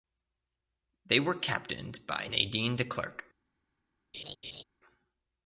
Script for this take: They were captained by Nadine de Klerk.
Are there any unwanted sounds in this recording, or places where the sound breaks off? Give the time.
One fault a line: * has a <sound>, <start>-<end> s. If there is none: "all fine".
* has a laugh, 4.1-4.6 s